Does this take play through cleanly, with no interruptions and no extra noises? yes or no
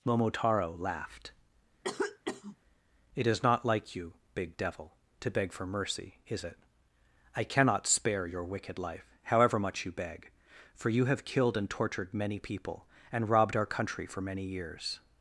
no